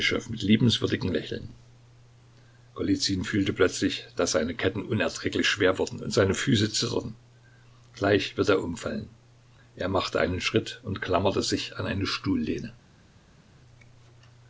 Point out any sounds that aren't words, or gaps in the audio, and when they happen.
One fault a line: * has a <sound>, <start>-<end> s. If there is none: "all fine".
all fine